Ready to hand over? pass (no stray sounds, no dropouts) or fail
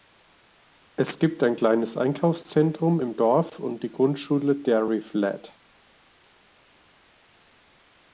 pass